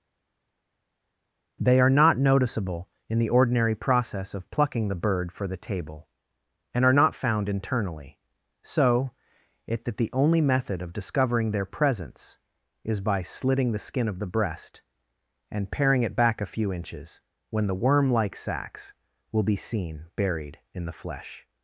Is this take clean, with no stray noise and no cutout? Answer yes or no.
yes